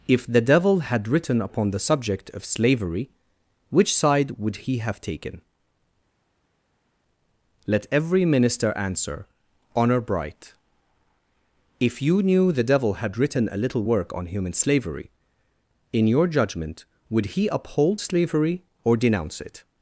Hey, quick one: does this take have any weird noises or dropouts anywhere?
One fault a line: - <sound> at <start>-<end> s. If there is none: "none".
none